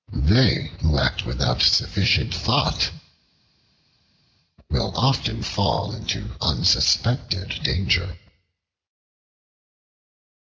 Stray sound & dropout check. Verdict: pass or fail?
pass